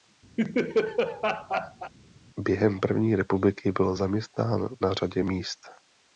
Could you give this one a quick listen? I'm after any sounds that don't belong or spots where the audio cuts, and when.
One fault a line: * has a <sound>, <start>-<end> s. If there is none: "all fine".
* has a laugh, 0.4-1.9 s